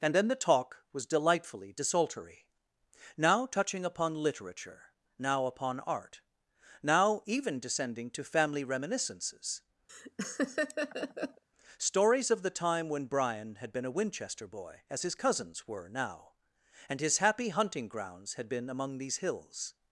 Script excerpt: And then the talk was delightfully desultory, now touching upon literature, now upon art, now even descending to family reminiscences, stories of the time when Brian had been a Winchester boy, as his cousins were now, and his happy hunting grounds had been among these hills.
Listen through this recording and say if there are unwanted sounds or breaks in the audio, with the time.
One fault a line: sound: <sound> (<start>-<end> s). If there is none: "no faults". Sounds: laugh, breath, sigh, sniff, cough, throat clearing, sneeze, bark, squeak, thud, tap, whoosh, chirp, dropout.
sound: laugh (9.9-11.4 s)